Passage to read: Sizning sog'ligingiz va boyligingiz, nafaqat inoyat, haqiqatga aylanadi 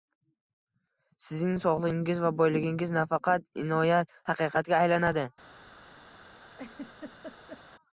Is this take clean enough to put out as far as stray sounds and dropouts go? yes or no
no